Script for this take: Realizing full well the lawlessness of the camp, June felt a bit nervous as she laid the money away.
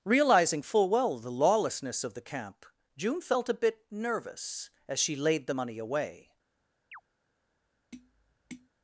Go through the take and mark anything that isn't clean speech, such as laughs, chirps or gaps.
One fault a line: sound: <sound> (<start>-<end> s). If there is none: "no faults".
sound: chirp (6.9-7.0 s)
sound: tap (7.9-8.7 s)